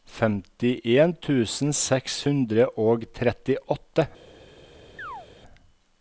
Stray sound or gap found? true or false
true